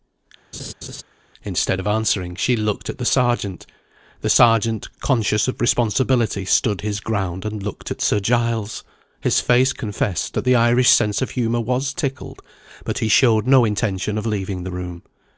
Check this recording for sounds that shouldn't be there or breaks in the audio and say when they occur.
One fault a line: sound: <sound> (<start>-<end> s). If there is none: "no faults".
sound: laugh (0.5-1.0 s)